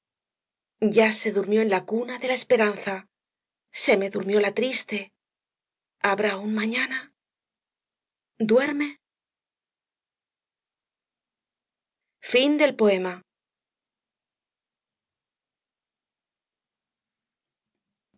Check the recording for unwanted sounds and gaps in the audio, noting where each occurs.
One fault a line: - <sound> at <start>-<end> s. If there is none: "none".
none